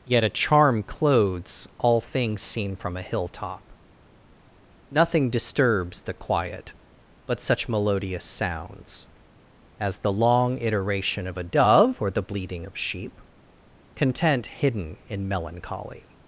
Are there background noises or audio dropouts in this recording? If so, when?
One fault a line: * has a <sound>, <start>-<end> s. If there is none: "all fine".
all fine